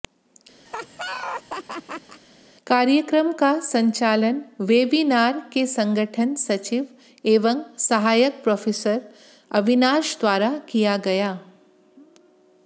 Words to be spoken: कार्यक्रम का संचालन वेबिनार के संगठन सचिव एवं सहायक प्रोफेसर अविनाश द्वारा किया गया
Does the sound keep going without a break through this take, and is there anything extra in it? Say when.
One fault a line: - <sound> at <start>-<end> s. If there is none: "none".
- laugh at 0.7-2.2 s